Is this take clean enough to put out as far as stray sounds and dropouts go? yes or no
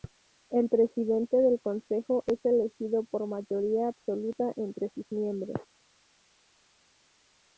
yes